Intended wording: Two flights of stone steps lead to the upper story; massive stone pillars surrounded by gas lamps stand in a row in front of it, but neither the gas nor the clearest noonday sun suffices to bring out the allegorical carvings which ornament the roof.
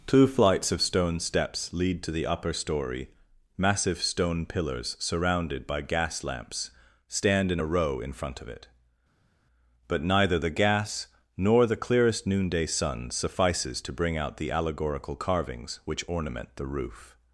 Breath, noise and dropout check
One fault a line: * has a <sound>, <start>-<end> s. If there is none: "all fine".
all fine